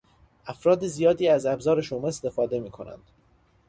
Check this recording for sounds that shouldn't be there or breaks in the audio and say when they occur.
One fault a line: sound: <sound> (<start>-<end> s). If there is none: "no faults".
no faults